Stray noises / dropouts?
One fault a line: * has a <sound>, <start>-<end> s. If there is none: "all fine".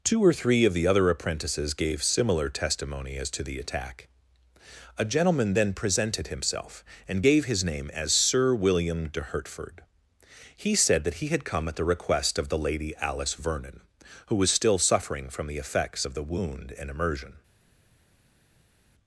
all fine